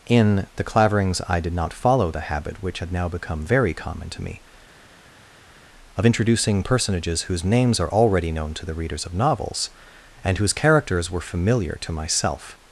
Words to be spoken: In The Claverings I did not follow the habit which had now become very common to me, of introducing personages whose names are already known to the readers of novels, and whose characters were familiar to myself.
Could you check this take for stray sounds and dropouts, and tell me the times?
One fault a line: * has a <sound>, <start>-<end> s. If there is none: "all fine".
all fine